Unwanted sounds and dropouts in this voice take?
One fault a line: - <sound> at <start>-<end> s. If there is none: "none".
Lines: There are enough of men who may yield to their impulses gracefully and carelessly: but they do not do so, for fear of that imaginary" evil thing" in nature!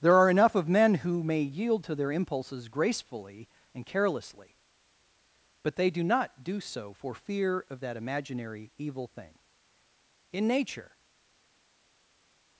none